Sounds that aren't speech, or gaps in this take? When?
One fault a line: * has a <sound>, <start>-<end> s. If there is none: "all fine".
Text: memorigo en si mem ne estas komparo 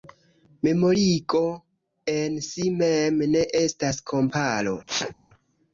* has a sneeze, 4.9-5.1 s